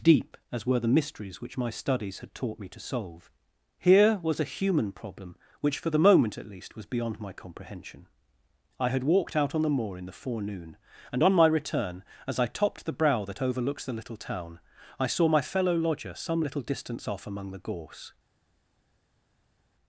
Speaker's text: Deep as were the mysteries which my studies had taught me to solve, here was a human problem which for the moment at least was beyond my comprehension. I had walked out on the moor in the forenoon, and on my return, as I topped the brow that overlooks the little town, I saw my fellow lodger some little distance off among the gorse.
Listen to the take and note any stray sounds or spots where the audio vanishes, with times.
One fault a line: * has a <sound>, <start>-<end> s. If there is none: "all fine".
all fine